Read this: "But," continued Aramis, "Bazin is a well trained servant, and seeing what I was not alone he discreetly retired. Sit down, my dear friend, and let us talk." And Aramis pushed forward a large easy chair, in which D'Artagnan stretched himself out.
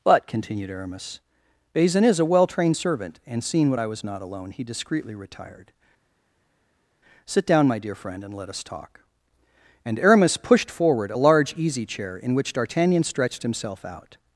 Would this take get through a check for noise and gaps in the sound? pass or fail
pass